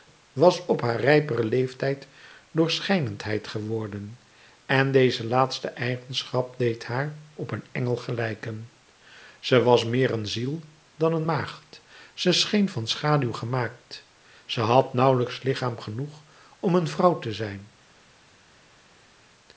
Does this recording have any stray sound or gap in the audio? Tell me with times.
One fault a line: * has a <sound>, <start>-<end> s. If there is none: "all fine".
all fine